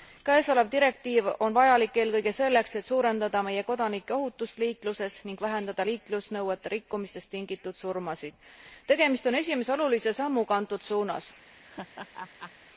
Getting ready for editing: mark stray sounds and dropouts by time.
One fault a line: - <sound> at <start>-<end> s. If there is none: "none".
- laugh at 11.6-12.5 s